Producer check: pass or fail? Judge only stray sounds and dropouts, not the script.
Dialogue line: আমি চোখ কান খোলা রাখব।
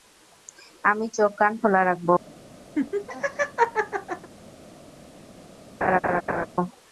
fail